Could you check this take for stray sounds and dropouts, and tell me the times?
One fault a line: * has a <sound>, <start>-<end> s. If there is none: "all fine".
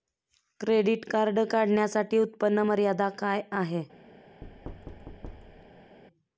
* has a thud, 4.4-6.0 s